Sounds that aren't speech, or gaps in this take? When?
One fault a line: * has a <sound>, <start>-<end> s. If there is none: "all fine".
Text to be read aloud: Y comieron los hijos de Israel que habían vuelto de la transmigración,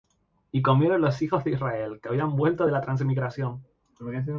all fine